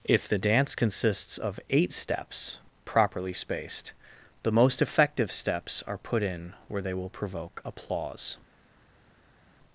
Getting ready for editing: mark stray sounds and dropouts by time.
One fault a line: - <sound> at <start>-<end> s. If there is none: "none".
none